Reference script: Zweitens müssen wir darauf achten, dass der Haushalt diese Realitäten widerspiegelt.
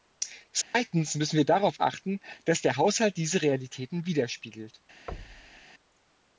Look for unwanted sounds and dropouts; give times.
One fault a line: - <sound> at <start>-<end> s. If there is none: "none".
- dropout at 0.6-0.7 s
- thud at 5.1-5.6 s